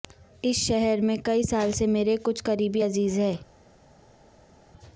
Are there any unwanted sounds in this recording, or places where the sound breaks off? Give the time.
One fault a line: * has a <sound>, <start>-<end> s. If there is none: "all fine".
all fine